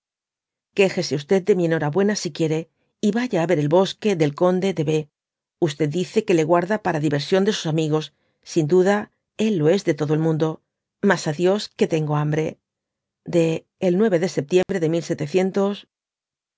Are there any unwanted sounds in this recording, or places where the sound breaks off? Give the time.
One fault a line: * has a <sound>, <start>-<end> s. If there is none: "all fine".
* has a dropout, 14.6-14.7 s